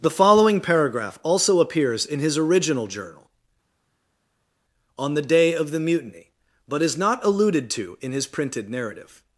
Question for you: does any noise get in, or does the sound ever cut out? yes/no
no